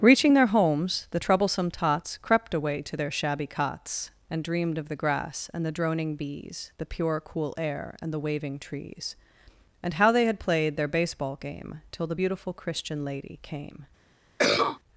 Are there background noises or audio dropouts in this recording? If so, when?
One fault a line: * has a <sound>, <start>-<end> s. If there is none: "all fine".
* has a cough, 14.4-14.8 s